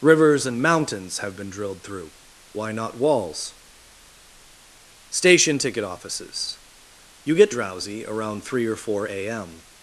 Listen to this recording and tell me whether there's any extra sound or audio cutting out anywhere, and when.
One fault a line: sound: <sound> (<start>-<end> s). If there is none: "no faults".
no faults